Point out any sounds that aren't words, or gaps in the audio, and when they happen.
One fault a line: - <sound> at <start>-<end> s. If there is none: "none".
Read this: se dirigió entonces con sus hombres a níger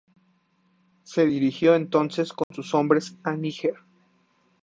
- dropout at 2.4-2.5 s